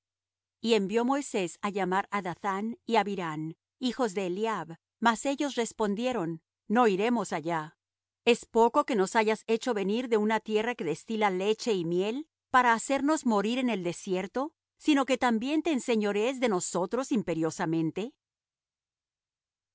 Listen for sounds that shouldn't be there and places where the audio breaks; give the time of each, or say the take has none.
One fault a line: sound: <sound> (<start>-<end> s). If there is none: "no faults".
no faults